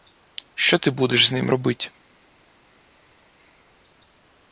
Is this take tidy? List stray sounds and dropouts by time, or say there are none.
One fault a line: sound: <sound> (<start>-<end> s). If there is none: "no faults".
no faults